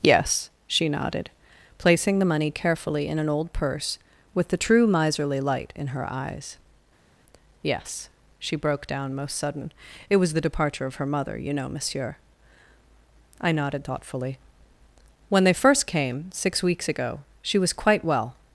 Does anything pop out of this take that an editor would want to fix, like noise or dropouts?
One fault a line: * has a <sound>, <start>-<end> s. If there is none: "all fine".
all fine